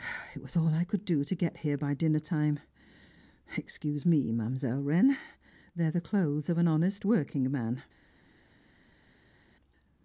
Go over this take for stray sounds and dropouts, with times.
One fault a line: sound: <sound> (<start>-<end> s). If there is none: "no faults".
no faults